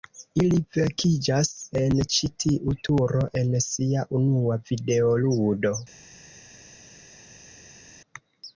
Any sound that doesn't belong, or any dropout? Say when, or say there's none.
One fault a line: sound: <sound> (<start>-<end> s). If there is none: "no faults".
no faults